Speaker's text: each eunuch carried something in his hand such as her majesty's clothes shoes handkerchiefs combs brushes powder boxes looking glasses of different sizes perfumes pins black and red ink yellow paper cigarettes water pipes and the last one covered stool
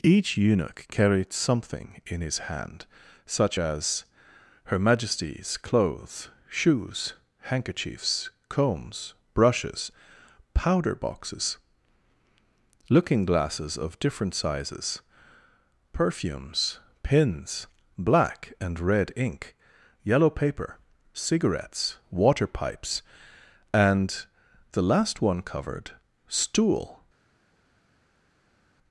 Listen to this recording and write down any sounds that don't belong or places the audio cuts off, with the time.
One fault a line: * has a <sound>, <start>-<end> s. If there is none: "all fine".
all fine